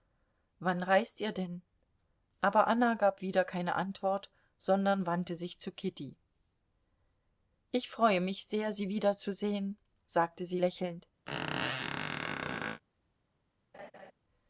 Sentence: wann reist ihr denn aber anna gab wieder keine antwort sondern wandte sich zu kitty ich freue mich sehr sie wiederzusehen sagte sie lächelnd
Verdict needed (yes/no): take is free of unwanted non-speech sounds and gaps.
no